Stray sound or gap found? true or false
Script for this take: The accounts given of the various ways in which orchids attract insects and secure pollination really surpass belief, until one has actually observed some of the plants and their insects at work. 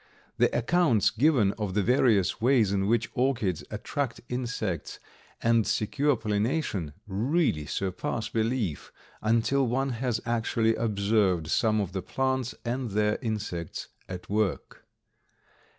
false